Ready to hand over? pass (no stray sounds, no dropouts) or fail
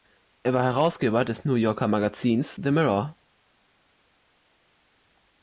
pass